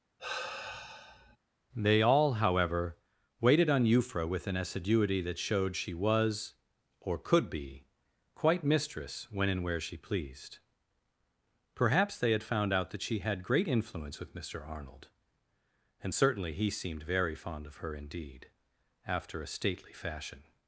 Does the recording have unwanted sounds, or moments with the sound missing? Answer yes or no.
yes